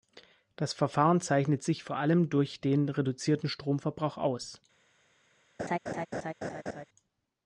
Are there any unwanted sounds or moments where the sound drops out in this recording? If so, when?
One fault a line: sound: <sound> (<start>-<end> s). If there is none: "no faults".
sound: laugh (5.6-6.8 s)